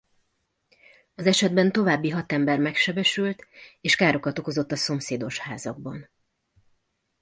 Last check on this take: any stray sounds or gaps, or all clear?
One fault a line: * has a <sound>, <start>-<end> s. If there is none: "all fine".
all fine